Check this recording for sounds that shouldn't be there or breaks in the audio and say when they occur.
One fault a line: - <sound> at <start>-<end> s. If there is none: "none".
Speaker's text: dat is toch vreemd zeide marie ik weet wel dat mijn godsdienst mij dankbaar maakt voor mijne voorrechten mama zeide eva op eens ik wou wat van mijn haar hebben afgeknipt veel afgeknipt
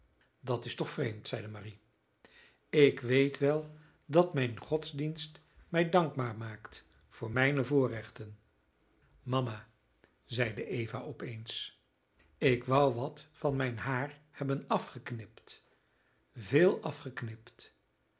none